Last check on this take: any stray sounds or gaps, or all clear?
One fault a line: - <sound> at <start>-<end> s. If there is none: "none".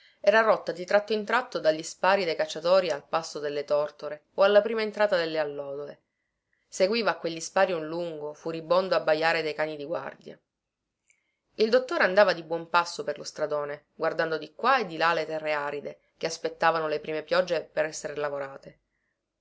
none